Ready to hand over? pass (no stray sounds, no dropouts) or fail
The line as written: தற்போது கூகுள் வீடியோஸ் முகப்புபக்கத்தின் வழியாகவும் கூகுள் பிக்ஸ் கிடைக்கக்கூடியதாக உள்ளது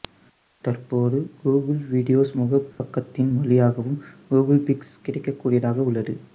fail